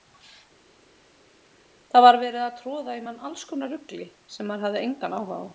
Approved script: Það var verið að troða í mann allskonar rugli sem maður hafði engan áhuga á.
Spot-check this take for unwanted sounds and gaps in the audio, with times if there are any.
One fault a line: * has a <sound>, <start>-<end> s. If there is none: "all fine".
all fine